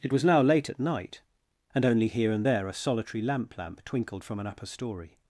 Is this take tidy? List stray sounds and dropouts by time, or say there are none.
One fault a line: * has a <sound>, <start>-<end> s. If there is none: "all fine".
all fine